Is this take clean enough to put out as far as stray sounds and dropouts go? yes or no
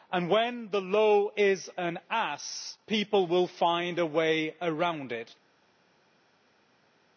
yes